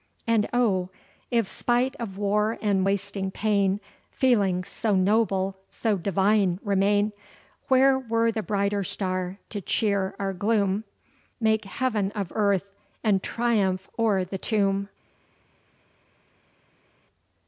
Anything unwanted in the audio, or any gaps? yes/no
no